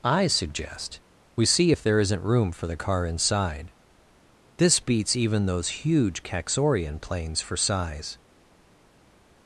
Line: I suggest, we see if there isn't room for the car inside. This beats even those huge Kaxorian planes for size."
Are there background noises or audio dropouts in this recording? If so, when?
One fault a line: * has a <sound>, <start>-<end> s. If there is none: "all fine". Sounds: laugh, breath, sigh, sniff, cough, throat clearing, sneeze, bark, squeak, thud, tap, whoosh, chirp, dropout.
all fine